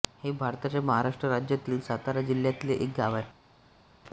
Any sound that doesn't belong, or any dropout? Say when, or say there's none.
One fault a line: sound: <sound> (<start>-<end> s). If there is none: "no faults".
no faults